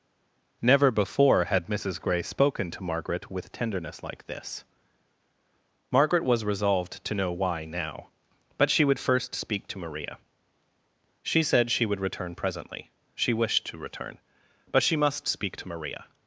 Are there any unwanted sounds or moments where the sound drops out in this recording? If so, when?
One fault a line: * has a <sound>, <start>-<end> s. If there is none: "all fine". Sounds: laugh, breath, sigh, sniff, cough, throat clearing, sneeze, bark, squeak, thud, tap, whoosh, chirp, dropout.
all fine